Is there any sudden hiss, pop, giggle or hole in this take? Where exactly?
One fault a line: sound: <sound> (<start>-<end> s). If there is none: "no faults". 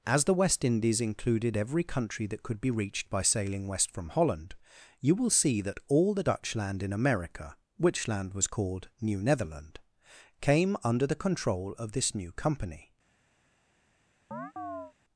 sound: chirp (14.3-14.9 s)